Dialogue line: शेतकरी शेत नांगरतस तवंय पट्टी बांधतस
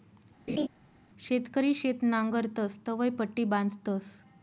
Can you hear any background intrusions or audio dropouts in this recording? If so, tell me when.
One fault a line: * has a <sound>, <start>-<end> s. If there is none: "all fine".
* has a laugh, 0.5-0.7 s